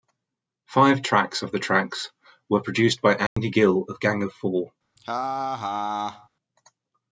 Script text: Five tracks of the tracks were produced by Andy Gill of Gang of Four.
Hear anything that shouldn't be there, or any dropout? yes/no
yes